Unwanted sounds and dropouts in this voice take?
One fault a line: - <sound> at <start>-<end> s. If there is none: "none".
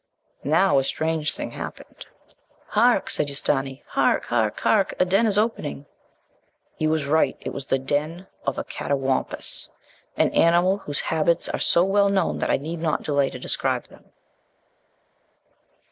none